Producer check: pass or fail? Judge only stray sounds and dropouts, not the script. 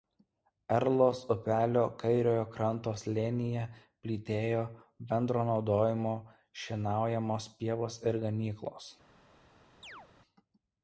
fail